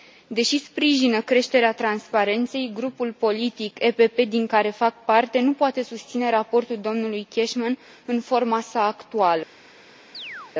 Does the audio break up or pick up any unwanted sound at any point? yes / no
yes